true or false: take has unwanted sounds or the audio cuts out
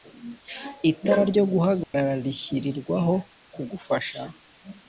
true